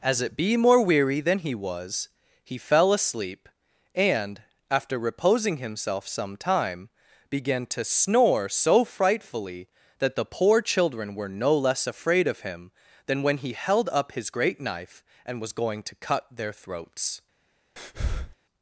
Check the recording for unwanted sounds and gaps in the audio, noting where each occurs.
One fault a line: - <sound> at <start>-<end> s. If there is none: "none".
- breath at 17.8-18.4 s